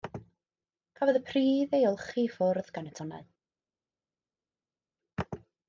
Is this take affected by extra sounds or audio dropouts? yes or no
no